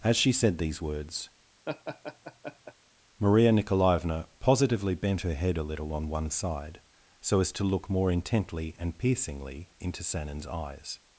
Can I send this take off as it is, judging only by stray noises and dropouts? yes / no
no